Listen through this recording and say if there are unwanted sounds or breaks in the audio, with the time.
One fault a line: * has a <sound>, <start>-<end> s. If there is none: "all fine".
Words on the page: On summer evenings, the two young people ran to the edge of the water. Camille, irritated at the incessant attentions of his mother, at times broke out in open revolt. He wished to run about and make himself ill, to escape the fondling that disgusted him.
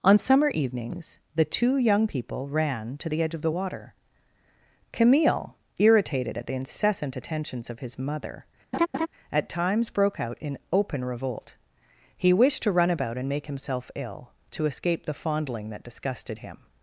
* has a laugh, 8.7-9.1 s